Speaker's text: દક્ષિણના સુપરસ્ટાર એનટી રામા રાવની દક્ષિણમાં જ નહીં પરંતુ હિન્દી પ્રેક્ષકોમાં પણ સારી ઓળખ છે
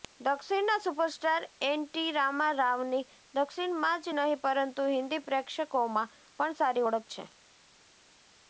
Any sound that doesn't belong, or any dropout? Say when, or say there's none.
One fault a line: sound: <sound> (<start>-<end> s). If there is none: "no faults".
no faults